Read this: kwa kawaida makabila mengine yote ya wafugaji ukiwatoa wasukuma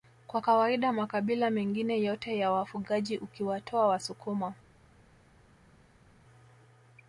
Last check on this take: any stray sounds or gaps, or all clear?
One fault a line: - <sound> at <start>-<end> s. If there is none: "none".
none